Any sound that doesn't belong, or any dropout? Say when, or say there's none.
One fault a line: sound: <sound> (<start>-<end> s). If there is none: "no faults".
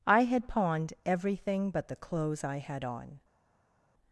no faults